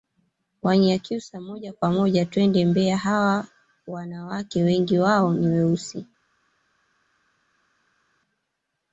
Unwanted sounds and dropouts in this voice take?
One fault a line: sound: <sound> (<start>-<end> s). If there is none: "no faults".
no faults